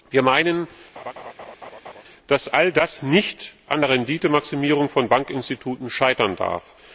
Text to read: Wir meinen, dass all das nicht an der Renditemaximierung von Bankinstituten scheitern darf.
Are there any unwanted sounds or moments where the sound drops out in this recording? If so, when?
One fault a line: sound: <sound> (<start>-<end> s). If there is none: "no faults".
sound: laugh (1.0-2.0 s)